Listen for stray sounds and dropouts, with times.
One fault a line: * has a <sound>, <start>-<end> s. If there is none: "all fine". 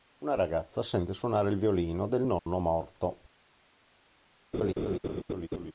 * has a dropout, 2.4-2.5 s
* has a laugh, 4.5-5.7 s